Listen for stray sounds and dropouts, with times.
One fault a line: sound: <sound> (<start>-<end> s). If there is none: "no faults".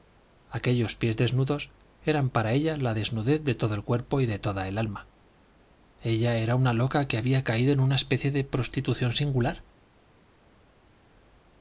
no faults